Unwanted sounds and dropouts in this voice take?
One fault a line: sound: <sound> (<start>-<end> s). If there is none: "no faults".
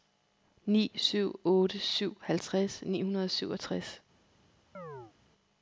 sound: chirp (4.7-5.1 s)